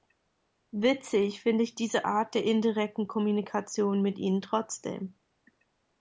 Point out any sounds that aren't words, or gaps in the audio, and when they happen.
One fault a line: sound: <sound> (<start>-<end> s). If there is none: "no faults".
no faults